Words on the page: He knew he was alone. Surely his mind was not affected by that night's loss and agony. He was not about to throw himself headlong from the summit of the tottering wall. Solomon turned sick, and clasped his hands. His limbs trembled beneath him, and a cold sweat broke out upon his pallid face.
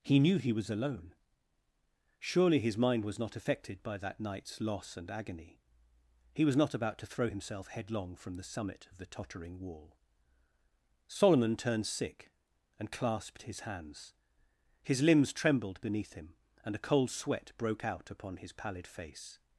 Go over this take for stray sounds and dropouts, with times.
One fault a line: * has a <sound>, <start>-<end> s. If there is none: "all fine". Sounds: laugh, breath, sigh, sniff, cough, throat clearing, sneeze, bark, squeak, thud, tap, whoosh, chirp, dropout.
all fine